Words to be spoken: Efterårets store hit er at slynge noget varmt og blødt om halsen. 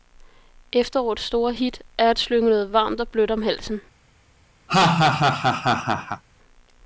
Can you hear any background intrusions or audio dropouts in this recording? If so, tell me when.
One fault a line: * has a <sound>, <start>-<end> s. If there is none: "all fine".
* has a laugh, 4.7-6.2 s